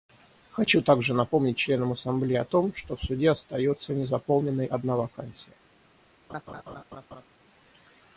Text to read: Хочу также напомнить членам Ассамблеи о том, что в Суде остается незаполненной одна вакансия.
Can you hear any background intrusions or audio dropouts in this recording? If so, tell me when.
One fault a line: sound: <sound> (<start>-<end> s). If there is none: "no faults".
sound: laugh (6.3-7.3 s)